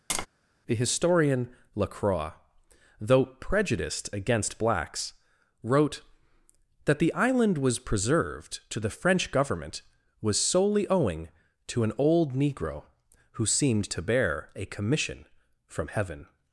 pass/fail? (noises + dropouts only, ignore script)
fail